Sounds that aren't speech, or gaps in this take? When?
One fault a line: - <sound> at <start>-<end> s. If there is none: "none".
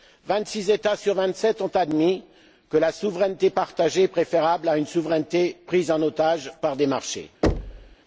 - thud at 7.4-8.0 s